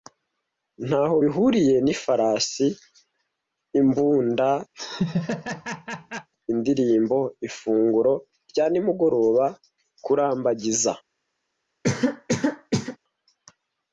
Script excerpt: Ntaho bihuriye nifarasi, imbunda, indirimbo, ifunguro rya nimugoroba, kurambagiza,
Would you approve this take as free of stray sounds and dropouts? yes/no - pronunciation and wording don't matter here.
no